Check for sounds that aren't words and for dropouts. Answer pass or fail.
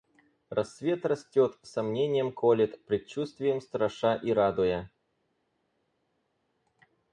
pass